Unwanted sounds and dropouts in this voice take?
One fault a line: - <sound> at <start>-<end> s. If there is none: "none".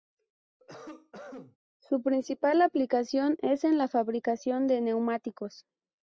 - cough at 0.6-1.6 s